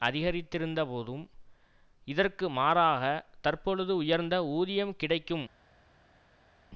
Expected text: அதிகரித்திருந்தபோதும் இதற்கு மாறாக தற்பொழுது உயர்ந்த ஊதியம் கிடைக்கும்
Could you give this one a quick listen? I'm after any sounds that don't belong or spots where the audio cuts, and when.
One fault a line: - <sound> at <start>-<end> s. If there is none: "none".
none